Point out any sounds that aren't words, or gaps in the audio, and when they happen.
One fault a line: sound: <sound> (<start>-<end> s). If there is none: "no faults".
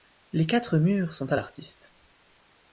no faults